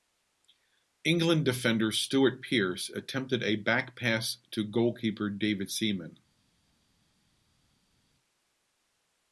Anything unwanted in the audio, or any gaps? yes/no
no